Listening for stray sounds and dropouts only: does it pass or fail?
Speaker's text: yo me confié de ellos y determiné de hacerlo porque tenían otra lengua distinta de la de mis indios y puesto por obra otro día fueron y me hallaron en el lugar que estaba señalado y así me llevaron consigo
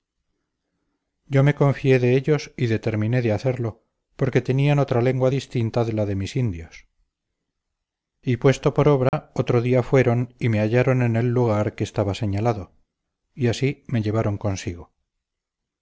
fail